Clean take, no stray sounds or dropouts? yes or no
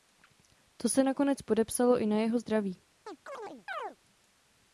no